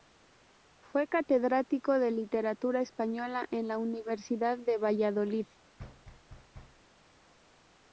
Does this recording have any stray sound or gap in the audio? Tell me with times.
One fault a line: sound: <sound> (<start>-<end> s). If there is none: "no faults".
sound: thud (5.8-6.8 s)